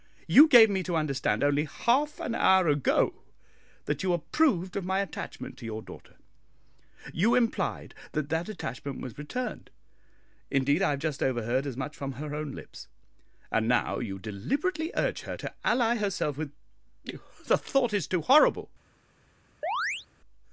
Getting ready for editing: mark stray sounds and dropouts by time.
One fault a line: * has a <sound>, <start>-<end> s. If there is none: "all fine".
* has a chirp, 19.6-20.1 s